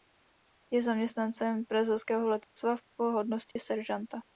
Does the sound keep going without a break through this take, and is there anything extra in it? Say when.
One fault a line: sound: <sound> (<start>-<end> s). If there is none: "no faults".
sound: dropout (2.4-2.6 s)
sound: dropout (3.5-3.6 s)